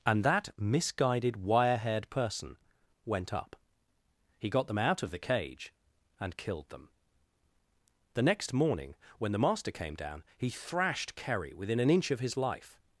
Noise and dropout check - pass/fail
pass